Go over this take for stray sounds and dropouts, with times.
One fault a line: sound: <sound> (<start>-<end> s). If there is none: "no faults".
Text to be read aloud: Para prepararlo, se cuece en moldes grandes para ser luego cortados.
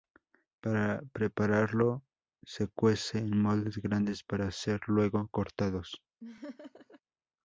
sound: laugh (6.2-7.0 s)